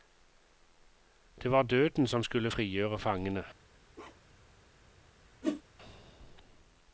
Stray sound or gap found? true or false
true